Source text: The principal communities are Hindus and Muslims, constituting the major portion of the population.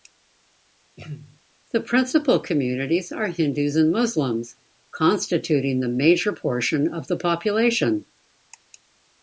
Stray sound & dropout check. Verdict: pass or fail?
fail